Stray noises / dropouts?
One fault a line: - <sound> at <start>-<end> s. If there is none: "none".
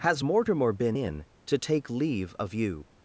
none